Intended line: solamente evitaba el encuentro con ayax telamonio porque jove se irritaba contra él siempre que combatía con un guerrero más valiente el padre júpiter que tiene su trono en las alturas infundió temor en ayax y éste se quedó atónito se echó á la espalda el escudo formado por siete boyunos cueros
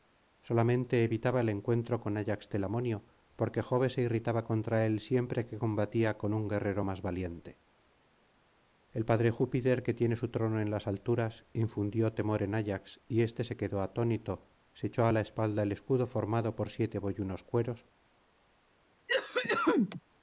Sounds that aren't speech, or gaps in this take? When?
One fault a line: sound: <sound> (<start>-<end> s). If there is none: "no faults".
sound: cough (19.1-20.0 s)